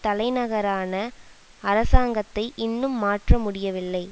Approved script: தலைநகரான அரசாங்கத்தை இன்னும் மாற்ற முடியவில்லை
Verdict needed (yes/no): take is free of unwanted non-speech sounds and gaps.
yes